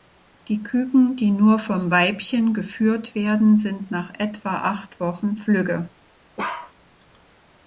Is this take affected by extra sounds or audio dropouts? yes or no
yes